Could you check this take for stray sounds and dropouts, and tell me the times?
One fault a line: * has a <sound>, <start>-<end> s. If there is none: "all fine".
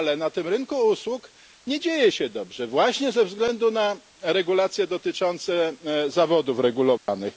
* has a dropout, 7.0-7.1 s